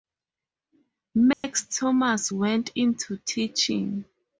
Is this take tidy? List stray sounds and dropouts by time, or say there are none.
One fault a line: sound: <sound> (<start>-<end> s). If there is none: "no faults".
sound: dropout (1.3-1.4 s)